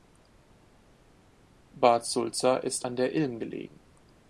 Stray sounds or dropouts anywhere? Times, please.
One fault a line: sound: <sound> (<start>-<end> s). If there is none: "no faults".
no faults